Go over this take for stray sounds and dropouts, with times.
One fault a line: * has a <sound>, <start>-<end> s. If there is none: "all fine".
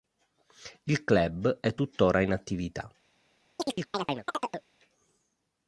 * has a chirp, 3.6-4.7 s